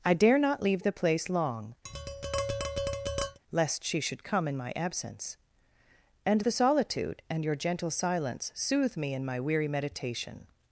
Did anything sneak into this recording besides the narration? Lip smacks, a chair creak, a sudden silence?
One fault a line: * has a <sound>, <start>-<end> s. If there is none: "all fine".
* has a tap, 1.8-3.4 s